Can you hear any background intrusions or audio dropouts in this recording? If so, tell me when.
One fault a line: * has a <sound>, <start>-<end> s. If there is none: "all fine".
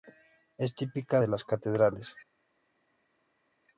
all fine